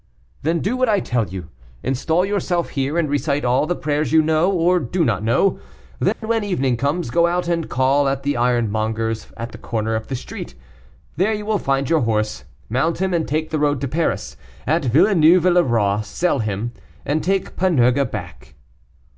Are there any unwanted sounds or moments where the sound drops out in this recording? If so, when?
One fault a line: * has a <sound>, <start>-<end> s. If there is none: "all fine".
* has a dropout, 6.1-6.2 s